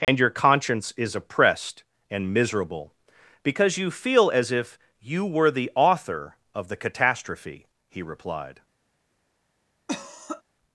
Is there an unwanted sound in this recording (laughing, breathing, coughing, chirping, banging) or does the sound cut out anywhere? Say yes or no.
yes